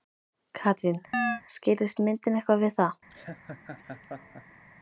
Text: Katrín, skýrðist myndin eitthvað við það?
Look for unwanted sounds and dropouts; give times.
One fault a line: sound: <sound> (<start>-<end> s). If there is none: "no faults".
sound: chirp (1.1-1.4 s)
sound: laugh (3.1-4.6 s)